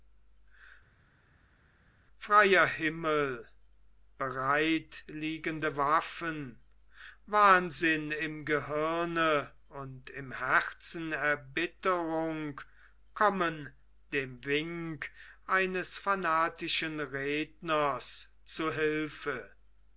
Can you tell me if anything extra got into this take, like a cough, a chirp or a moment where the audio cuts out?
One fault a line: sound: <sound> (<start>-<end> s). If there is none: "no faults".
no faults